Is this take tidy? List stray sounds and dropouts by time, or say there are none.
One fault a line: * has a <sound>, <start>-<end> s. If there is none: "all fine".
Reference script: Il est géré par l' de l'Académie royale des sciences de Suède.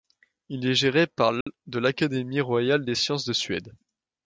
* has a dropout, 1.4-1.5 s